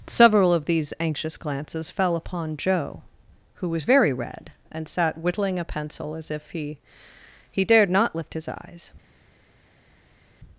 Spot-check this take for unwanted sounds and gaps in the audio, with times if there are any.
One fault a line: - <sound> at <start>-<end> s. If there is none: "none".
none